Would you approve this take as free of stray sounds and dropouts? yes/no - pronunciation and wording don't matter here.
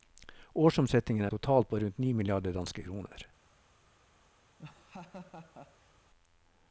no